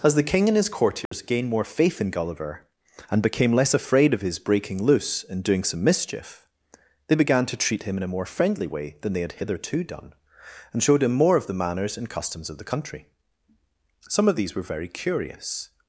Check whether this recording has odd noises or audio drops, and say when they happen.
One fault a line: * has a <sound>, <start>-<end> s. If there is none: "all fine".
* has a dropout, 1.1-1.1 s